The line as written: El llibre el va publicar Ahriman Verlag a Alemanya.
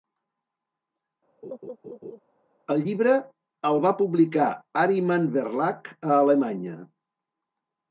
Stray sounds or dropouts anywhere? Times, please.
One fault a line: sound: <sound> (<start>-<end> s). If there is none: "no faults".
sound: laugh (1.4-2.2 s)